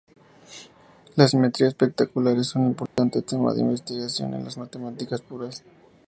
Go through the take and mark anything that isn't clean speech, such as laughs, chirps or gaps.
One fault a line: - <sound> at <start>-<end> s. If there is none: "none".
- dropout at 2.9-3.0 s